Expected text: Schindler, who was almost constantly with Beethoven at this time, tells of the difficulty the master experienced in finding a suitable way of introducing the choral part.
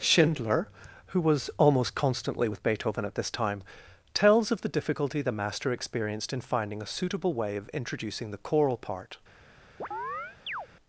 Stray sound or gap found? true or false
true